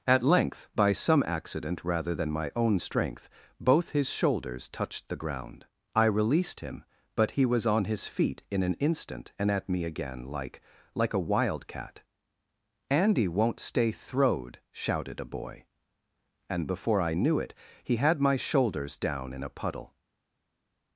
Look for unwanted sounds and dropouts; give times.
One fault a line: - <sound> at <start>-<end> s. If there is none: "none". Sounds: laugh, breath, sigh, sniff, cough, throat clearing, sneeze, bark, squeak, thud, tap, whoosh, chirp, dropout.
none